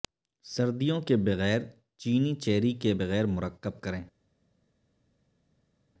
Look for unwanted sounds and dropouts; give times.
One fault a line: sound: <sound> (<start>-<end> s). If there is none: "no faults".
no faults